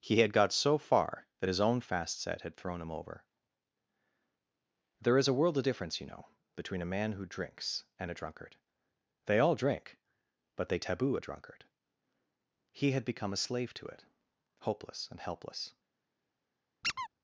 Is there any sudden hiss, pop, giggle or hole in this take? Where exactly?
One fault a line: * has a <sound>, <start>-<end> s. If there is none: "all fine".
* has a squeak, 16.8-17.1 s